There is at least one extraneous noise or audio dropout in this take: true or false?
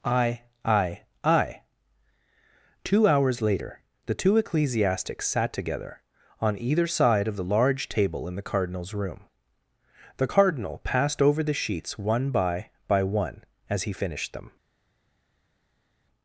false